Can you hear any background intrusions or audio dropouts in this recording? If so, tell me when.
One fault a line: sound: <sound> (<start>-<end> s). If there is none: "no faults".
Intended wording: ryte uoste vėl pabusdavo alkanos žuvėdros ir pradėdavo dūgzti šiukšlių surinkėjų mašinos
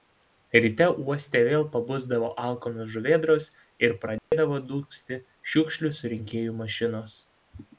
sound: dropout (4.2-4.3 s)